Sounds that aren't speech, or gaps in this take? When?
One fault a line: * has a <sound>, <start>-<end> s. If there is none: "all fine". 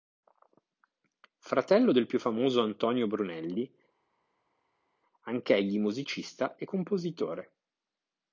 all fine